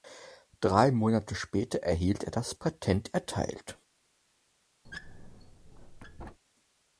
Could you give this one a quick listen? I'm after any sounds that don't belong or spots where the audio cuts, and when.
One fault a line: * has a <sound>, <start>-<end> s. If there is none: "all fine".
* has a squeak, 4.8-6.4 s